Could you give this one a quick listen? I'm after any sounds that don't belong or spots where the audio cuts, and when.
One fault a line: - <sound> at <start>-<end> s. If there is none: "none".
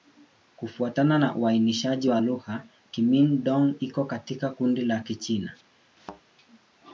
- thud at 6.0-6.2 s